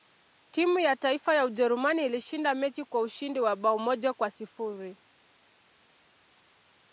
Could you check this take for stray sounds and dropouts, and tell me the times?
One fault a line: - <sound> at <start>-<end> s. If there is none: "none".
none